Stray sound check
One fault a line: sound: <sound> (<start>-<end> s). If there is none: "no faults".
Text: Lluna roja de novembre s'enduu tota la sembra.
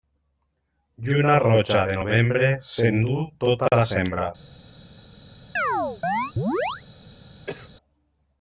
sound: chirp (5.6-6.8 s)
sound: cough (7.5-7.7 s)